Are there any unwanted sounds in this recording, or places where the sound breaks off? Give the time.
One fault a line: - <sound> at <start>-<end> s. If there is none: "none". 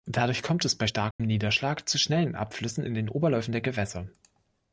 - dropout at 1.1-1.2 s